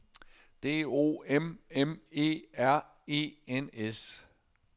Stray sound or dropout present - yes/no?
no